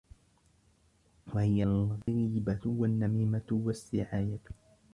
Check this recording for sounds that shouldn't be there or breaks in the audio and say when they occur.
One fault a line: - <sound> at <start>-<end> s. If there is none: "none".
- dropout at 2.0-2.1 s